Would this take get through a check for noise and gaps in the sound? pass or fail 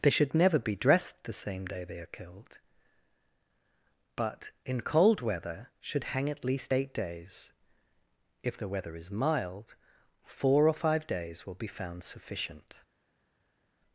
pass